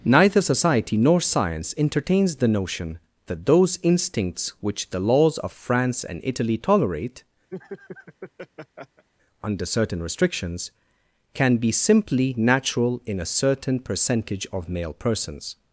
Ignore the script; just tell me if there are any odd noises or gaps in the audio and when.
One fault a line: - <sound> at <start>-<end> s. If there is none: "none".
- laugh at 7.5-9.0 s